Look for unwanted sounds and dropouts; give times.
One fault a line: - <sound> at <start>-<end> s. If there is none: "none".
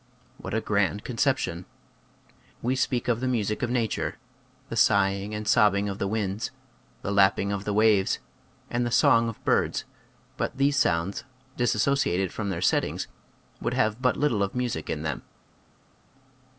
none